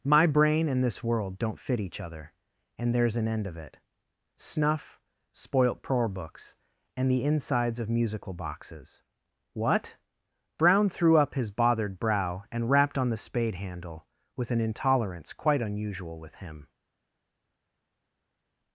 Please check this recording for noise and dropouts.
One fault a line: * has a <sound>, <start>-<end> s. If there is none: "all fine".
all fine